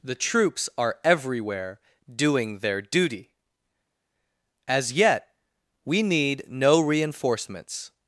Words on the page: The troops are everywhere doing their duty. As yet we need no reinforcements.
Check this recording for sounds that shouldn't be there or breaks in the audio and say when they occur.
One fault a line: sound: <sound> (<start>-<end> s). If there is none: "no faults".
no faults